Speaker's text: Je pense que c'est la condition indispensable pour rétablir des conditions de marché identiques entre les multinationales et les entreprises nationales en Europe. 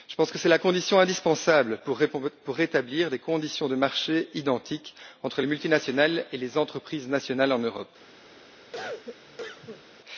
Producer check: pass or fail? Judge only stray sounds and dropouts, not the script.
fail